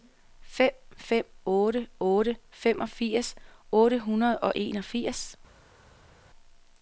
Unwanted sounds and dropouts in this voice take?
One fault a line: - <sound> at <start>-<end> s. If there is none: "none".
none